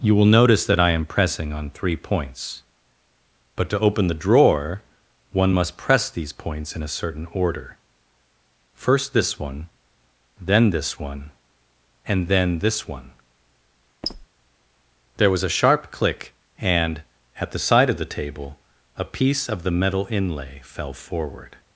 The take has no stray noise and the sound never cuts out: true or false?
false